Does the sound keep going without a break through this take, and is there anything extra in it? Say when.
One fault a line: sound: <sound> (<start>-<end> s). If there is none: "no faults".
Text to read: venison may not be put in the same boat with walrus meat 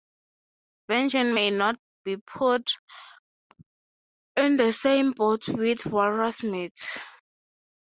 no faults